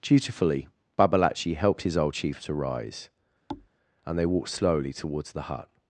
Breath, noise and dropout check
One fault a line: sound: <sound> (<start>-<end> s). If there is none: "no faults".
sound: thud (3.5-3.7 s)